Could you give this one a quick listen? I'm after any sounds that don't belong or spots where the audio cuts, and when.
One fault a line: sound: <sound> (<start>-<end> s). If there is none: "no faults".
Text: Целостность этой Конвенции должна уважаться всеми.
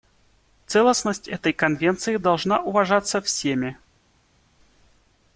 no faults